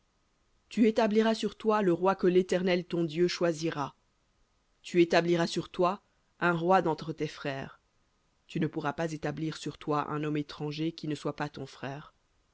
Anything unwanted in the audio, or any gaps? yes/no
no